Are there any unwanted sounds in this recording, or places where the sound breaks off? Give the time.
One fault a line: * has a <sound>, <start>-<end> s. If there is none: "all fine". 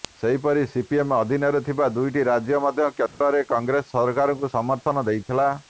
* has a dropout, 3.1-3.2 s